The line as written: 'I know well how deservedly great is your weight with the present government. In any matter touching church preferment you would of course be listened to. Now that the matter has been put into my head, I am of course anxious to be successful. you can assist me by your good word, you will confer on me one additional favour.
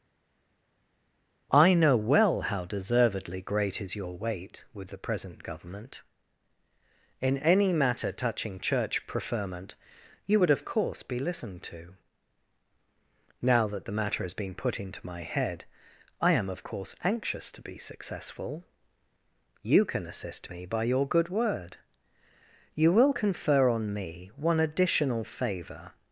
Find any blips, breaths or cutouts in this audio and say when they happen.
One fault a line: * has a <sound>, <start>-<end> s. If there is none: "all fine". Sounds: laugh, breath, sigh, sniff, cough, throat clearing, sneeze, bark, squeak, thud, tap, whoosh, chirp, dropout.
all fine